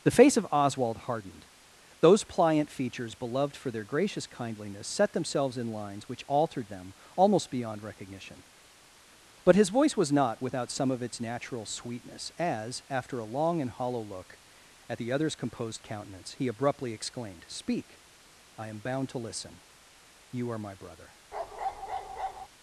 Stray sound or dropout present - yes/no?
yes